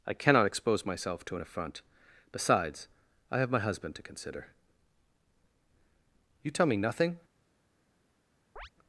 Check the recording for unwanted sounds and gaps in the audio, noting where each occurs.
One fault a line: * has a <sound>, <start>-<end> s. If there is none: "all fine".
* has a chirp, 8.6-8.7 s